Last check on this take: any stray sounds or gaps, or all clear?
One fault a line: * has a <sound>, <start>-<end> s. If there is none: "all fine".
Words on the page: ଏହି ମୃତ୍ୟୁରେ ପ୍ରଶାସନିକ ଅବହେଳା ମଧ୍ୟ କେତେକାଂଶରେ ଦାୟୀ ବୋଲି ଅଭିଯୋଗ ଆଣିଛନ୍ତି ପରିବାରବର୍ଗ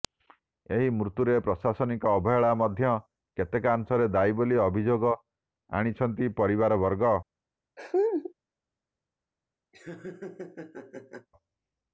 * has a laugh, 7.8-8.3 s
* has a laugh, 9.7-11.3 s